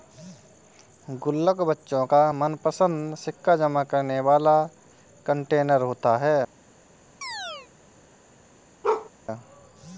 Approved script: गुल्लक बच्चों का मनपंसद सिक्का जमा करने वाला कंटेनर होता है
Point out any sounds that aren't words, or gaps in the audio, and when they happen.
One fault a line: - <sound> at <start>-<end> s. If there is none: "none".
- chirp at 7.2-7.7 s
- bark at 8.8-9.1 s